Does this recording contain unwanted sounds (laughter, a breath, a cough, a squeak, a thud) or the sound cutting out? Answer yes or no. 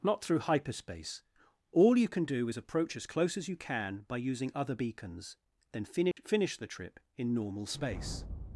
yes